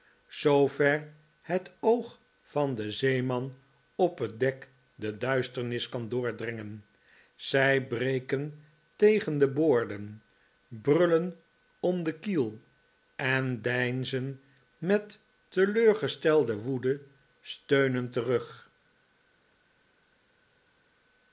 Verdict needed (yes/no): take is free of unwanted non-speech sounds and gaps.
yes